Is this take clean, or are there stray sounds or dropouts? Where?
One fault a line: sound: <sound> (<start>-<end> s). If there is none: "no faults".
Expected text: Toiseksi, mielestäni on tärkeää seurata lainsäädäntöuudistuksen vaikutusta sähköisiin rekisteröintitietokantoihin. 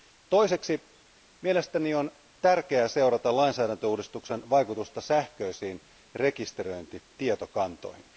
no faults